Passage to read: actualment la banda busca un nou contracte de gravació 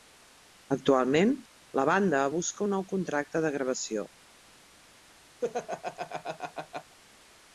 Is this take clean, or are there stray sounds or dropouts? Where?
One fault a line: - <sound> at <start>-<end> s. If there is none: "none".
- laugh at 5.4-7.0 s